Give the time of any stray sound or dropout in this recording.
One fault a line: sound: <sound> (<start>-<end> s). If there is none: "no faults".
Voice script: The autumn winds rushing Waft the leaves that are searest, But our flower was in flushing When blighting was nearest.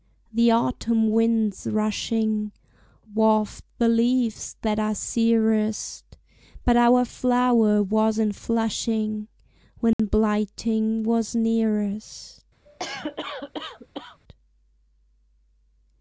sound: dropout (9.9-10.0 s)
sound: cough (12.7-14.2 s)